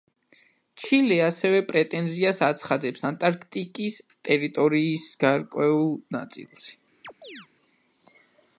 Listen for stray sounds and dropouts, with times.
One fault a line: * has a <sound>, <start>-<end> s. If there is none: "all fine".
* has a chirp, 7.0-7.5 s